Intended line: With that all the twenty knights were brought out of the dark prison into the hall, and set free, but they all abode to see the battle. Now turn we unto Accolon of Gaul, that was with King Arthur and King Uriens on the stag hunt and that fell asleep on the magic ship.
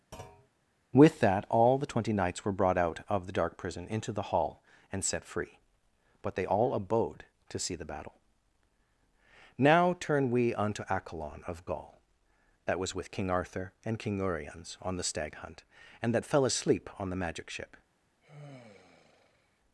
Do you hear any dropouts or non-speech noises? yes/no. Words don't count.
yes